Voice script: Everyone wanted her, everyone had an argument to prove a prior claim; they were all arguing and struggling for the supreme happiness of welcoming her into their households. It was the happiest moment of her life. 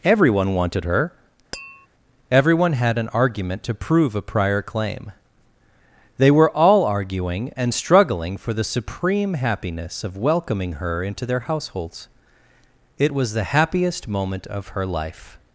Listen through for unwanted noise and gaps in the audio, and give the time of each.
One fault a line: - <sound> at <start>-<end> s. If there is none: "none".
- tap at 1.5-1.9 s